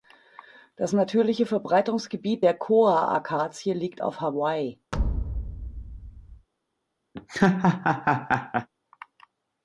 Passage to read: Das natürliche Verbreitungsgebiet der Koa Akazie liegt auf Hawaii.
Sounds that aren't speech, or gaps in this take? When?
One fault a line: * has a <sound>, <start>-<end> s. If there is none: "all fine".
* has a thud, 4.9-6.5 s
* has a laugh, 7.1-8.7 s